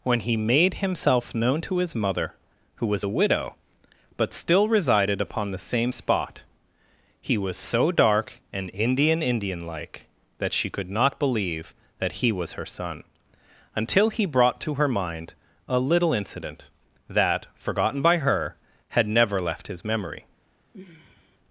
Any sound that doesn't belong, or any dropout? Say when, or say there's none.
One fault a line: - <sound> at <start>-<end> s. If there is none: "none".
- sigh at 20.7-21.4 s